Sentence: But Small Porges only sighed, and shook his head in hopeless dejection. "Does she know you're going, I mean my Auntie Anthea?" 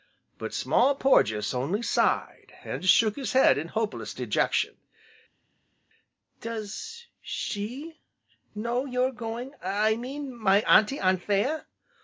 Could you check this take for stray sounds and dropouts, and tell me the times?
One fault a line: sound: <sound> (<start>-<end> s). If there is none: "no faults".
no faults